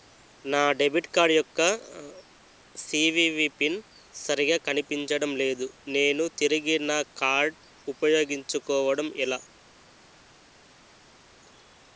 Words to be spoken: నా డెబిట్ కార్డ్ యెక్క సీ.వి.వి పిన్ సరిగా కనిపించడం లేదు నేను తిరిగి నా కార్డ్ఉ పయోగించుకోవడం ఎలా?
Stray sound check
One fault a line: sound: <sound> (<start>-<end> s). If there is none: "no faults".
no faults